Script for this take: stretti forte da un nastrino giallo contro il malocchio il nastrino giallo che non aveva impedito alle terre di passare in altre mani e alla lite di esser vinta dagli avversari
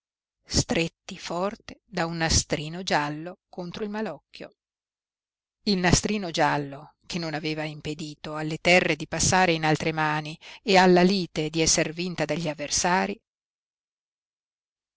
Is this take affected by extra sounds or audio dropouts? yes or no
no